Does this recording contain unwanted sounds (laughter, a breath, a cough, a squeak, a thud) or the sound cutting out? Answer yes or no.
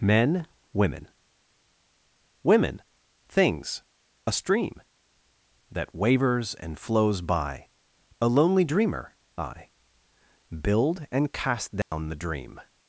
yes